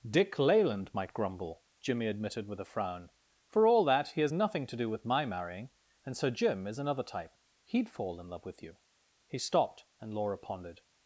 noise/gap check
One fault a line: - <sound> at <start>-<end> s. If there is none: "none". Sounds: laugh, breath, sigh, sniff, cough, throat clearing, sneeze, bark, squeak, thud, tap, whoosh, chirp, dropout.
none